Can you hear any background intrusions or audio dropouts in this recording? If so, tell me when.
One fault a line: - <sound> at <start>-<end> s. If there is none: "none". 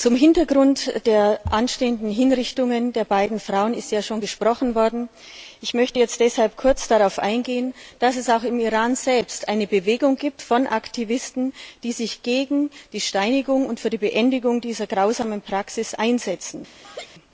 - laugh at 16.8-17.1 s